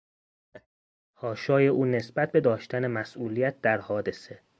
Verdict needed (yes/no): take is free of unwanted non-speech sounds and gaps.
no